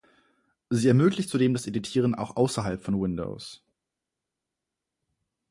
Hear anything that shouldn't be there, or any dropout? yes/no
no